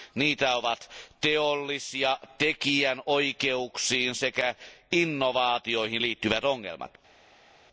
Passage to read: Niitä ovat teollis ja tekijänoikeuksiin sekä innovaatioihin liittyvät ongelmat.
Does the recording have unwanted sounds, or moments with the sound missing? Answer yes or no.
no